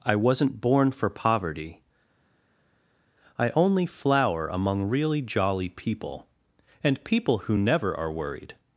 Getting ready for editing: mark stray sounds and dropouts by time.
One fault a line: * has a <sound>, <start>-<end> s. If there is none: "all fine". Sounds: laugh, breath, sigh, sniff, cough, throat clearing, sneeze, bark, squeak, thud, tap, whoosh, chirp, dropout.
all fine